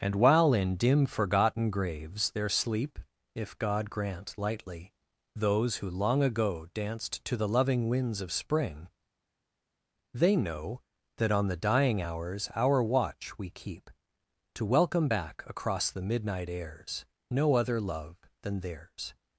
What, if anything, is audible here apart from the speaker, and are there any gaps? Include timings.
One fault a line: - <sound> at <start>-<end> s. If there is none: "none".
none